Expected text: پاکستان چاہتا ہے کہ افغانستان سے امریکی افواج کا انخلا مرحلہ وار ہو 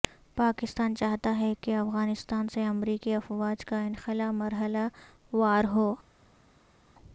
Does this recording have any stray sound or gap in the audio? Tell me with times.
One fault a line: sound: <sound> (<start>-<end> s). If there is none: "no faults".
no faults